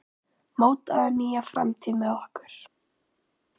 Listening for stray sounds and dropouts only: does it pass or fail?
pass